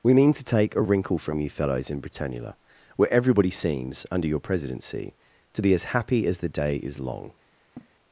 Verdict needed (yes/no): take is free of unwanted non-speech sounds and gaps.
no